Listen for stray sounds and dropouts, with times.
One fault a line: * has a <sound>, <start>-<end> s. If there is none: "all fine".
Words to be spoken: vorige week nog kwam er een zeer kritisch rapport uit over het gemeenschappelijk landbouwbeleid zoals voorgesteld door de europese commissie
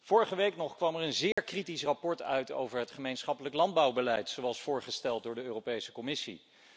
* has a dropout, 1.3-1.4 s